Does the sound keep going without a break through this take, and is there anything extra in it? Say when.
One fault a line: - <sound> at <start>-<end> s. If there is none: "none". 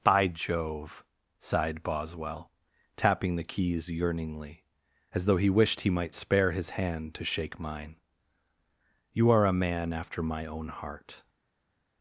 none